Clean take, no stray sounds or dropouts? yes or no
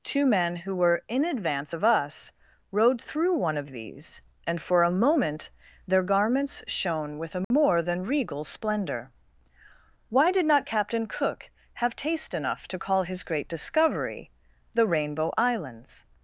no